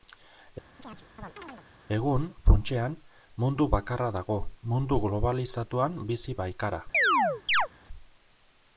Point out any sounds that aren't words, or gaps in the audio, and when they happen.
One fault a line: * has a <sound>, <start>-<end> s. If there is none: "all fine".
* has a chirp, 0.8-1.7 s
* has a chirp, 6.9-7.7 s